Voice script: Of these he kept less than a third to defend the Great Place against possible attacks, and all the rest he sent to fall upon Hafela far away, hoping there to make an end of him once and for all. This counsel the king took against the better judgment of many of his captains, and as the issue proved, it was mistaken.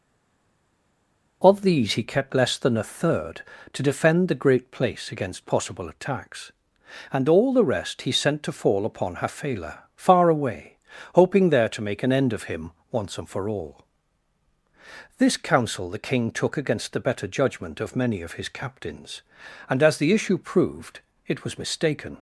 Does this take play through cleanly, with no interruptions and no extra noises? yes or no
yes